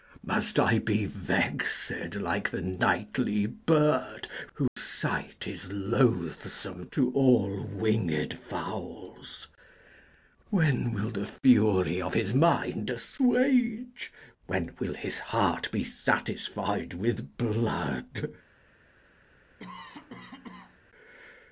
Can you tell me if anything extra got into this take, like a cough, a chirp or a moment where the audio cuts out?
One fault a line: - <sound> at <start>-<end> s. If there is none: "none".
- dropout at 4.7-4.8 s
- cough at 19.6-20.8 s